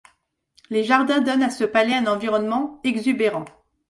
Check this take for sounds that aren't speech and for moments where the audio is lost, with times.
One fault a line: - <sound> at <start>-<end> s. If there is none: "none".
none